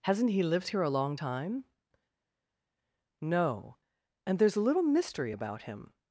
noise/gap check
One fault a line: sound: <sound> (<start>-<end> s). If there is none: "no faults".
no faults